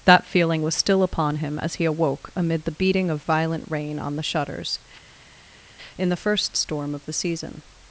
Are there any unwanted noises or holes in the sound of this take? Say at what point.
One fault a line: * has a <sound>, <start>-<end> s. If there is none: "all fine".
all fine